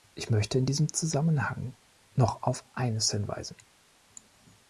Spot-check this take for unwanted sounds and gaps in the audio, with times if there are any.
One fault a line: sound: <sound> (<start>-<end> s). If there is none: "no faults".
no faults